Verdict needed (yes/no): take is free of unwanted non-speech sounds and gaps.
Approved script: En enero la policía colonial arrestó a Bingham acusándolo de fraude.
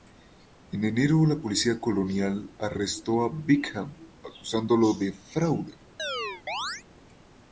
no